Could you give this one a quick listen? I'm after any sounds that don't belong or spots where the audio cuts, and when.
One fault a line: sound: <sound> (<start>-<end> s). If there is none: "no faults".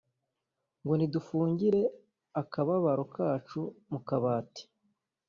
no faults